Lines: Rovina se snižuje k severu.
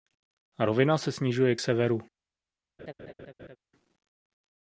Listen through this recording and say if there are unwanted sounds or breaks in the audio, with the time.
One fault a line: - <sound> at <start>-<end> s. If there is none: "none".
- laugh at 2.8-3.6 s